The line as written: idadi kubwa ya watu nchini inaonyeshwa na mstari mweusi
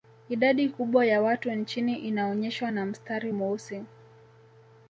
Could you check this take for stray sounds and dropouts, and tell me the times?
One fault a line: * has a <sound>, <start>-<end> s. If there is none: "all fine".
all fine